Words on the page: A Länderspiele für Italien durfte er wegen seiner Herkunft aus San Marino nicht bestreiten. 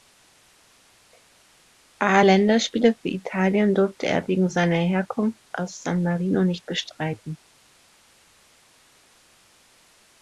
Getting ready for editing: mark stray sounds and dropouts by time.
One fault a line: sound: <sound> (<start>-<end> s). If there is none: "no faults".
no faults